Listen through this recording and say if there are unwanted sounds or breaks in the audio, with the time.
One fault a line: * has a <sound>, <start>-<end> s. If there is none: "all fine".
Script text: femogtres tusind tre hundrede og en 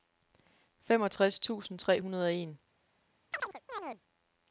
* has a chirp, 3.3-4.0 s